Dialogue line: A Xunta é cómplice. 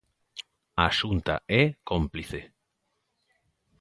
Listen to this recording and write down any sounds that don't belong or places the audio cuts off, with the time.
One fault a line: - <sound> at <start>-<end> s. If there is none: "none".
none